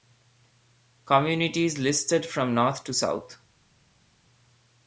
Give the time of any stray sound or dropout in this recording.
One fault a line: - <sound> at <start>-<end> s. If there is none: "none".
none